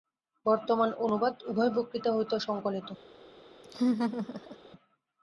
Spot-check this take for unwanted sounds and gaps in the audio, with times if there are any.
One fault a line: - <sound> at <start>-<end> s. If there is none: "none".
- laugh at 3.6-4.6 s